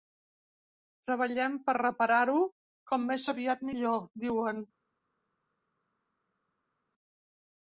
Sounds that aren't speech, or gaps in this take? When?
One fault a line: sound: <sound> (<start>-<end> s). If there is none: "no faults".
no faults